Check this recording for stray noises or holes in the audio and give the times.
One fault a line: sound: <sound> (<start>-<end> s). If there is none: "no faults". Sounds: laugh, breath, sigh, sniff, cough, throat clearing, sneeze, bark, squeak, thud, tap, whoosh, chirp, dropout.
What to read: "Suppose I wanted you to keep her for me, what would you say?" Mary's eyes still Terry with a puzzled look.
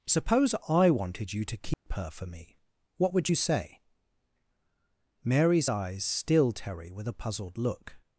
sound: dropout (1.7-1.9 s)